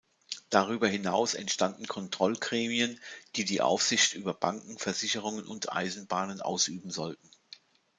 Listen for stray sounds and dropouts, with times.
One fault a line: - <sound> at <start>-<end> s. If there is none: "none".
none